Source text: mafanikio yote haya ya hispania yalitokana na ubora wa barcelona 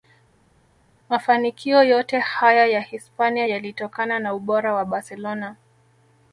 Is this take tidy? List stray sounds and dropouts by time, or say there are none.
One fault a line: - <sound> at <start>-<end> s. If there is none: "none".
none